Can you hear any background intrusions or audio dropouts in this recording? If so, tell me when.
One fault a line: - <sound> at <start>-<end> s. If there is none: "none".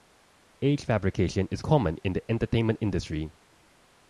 none